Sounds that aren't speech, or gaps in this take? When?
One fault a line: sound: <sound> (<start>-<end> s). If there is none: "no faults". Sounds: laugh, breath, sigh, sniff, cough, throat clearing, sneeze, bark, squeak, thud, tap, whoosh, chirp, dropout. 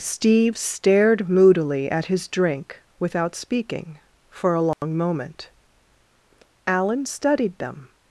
sound: dropout (4.7-4.8 s)